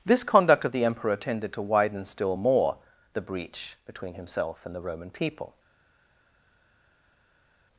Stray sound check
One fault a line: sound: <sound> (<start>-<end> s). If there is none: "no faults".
no faults